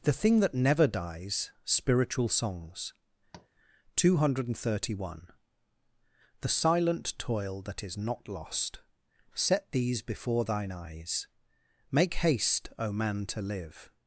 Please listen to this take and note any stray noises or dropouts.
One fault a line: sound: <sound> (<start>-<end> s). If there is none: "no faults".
sound: tap (3.3-3.5 s)